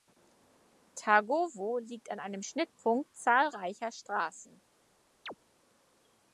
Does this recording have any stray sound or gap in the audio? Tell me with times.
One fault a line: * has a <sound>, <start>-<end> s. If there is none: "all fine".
* has a chirp, 5.3-5.3 s